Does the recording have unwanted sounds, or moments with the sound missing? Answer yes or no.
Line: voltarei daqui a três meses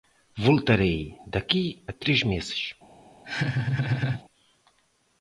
yes